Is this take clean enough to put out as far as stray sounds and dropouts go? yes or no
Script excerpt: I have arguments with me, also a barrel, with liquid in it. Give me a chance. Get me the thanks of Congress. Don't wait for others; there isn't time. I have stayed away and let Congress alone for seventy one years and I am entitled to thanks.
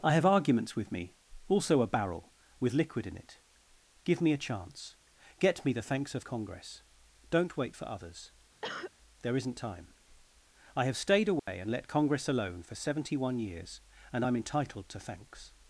no